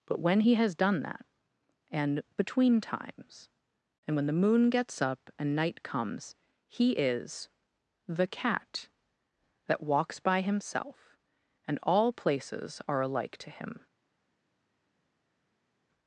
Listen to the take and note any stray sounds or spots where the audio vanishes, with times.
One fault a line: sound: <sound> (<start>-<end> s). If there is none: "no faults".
no faults